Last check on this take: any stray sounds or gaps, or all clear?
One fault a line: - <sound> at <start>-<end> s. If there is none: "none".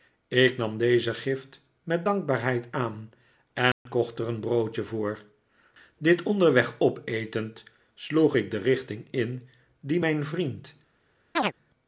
- dropout at 3.7-3.9 s
- chirp at 11.3-11.5 s